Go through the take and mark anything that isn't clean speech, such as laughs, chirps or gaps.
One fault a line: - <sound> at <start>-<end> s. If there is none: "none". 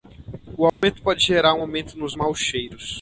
- dropout at 0.7-0.8 s